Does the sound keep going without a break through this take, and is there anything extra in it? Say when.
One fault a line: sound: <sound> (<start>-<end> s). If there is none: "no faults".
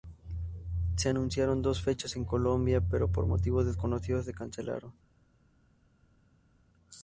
no faults